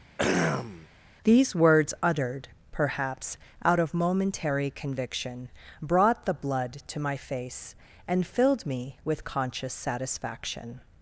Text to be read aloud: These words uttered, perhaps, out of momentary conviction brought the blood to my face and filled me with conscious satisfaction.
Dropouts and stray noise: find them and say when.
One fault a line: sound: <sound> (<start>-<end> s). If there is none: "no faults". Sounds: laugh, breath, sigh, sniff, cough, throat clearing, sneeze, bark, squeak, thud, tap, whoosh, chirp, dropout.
sound: throat clearing (0.2-0.9 s)